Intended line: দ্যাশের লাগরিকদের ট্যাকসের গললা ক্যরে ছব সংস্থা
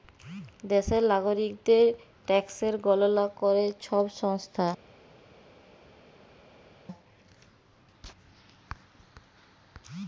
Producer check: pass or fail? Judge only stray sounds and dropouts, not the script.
pass